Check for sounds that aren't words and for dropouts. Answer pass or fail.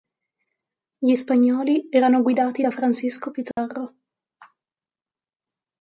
fail